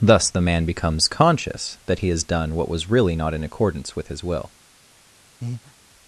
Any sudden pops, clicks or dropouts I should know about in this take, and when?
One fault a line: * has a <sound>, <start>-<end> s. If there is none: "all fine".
* has a breath, 5.4-5.7 s